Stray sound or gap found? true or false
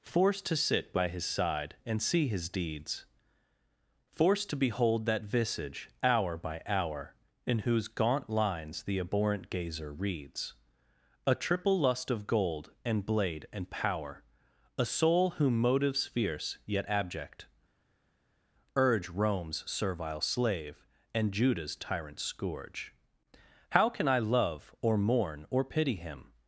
false